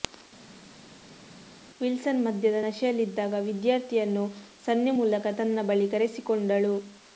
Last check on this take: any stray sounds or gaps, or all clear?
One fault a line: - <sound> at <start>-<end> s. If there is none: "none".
none